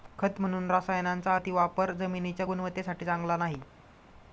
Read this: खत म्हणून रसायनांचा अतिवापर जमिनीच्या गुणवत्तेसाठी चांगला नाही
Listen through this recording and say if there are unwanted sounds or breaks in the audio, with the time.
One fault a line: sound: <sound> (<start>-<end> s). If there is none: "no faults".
no faults